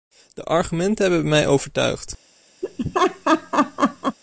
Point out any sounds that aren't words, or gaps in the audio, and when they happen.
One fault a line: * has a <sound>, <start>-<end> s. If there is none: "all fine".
* has a laugh, 2.6-4.2 s